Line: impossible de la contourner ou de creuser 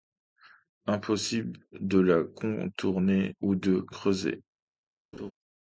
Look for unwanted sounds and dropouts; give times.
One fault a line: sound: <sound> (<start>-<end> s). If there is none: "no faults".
sound: laugh (5.1-5.3 s)